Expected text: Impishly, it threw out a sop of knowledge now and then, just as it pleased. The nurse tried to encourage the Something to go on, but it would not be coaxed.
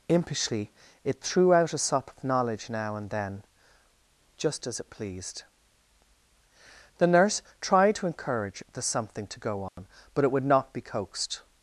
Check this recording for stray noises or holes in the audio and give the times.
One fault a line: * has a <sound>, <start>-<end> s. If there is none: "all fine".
* has a dropout, 9.7-9.8 s